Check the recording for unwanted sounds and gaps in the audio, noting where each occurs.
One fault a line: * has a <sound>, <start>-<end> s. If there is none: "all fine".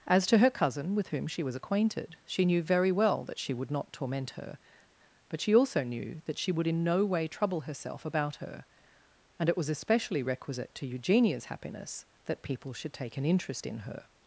all fine